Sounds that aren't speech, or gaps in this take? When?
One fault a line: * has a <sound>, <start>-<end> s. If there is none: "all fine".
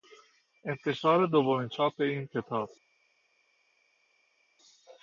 all fine